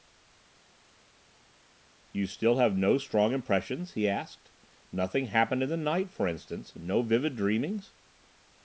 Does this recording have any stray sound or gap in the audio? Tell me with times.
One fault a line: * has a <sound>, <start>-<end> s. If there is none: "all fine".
all fine